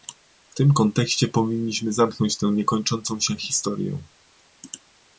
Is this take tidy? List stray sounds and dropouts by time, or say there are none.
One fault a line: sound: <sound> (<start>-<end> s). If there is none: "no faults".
no faults